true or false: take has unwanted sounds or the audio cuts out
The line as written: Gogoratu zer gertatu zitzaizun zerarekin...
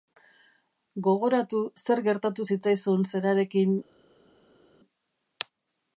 false